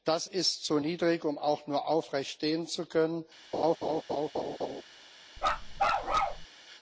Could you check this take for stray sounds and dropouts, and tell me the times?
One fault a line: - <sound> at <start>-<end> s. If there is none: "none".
- laugh at 3.5-4.8 s
- bark at 5.4-6.5 s